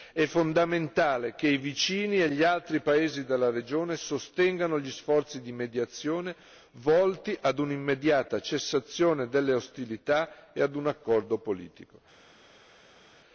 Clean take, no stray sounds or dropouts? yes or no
yes